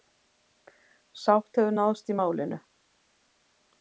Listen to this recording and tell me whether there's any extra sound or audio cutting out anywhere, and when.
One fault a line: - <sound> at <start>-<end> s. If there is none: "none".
none